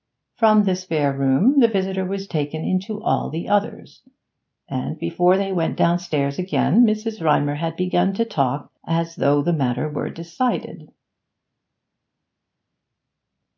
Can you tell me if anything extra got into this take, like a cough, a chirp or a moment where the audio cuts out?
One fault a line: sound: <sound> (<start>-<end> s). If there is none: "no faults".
no faults